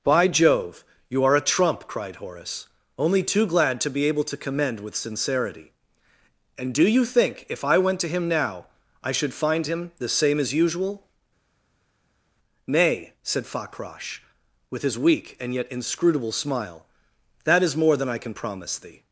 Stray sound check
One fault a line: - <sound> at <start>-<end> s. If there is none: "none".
none